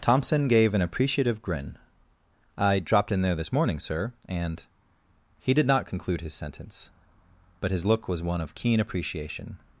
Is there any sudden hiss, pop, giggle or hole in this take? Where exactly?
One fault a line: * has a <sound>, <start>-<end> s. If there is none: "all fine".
all fine